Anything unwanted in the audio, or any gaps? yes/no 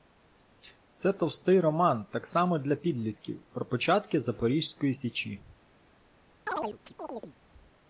yes